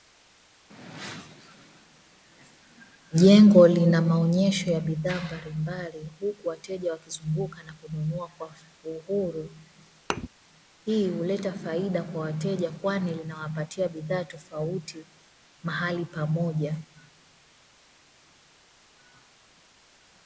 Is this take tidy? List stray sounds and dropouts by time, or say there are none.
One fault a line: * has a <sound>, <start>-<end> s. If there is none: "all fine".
* has a thud, 10.1-10.3 s